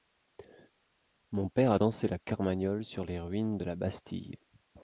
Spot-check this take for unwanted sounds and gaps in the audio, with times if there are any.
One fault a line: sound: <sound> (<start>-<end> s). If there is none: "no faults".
no faults